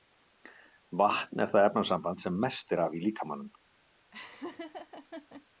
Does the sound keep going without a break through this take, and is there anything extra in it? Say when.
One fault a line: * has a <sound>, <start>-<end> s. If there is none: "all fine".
* has a laugh, 4.1-5.5 s